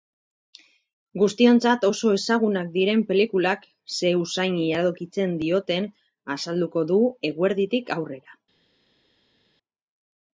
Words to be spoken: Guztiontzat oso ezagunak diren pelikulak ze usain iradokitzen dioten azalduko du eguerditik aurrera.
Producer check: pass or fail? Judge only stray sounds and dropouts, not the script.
pass